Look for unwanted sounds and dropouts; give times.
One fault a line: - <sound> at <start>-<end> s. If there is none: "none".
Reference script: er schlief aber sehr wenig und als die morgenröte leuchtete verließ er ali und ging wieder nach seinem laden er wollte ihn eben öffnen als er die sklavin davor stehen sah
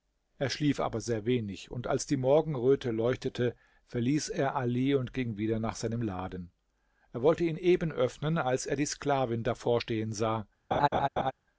- laugh at 10.7-11.3 s